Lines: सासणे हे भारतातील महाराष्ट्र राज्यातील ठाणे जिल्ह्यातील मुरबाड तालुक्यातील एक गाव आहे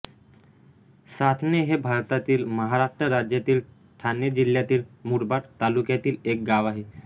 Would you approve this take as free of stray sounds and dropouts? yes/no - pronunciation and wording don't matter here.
yes